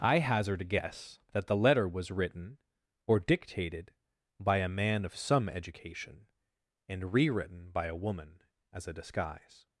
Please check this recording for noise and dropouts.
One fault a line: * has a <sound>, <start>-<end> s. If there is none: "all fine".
all fine